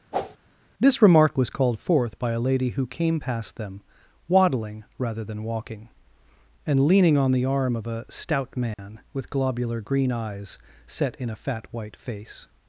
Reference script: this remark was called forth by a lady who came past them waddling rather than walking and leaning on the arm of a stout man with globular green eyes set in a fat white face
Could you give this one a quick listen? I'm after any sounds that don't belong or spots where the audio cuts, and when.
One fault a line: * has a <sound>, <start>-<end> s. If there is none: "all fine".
* has a whoosh, 0.1-0.4 s
* has a dropout, 8.7-8.8 s